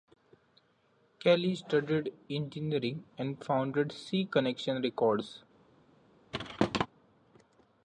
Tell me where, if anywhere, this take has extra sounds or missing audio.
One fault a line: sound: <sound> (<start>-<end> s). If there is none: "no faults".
sound: thud (6.3-6.9 s)